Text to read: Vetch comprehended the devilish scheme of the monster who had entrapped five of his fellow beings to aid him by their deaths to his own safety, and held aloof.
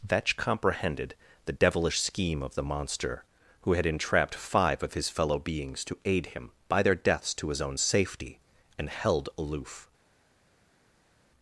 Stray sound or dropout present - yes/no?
no